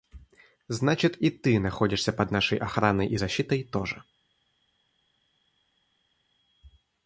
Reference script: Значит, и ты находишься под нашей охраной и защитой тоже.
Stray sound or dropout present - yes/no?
no